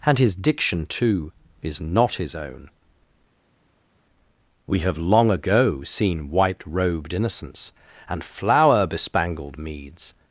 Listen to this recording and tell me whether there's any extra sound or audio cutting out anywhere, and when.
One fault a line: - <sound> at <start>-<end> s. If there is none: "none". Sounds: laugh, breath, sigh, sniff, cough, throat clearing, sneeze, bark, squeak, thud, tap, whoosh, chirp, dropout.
none